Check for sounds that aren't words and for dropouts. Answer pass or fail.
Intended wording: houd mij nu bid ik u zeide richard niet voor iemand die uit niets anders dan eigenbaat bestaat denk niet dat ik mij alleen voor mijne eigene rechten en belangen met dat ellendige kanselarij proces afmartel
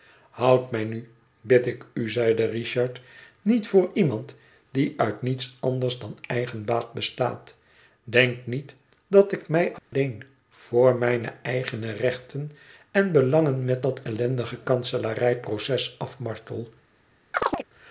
fail